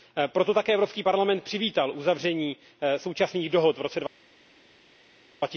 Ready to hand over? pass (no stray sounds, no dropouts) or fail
pass